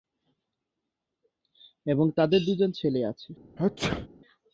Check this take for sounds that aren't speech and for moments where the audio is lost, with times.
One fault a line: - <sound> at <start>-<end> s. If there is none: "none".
- sneeze at 3.6-4.1 s